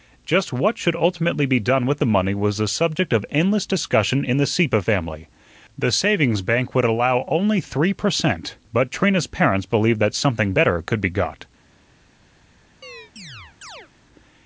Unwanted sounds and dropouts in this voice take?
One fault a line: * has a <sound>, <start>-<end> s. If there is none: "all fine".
* has a chirp, 12.8-13.9 s